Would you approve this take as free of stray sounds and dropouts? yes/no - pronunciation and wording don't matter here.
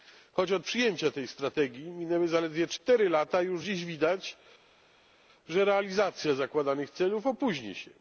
yes